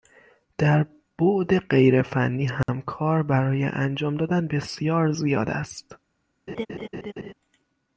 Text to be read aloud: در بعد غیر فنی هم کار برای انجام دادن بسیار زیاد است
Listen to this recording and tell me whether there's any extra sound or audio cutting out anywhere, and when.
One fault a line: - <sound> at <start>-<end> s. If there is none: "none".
- dropout at 2.6-2.7 s
- laugh at 6.5-7.3 s